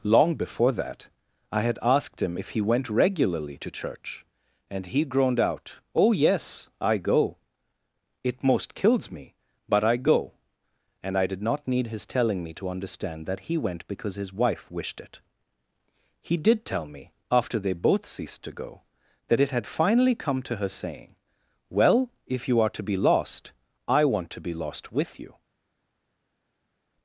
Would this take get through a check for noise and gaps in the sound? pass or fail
pass